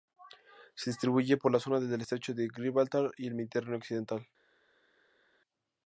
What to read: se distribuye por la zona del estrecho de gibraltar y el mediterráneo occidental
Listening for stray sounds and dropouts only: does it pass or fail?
pass